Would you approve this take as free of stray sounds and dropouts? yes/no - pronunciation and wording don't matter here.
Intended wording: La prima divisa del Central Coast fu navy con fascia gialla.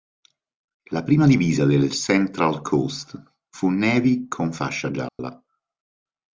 no